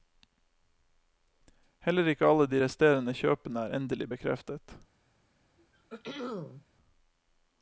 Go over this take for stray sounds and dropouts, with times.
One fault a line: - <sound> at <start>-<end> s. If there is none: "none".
- throat clearing at 5.6-6.7 s